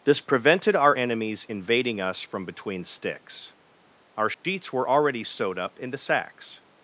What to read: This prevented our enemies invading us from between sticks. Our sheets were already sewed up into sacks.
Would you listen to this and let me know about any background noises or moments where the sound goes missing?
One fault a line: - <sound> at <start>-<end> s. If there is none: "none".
- dropout at 4.3-4.4 s